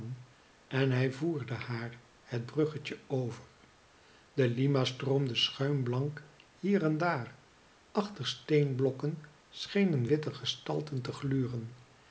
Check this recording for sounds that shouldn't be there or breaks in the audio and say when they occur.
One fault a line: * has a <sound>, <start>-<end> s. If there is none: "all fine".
all fine